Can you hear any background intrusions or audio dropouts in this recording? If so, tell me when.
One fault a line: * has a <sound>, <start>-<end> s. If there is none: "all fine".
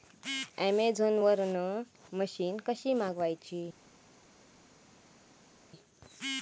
all fine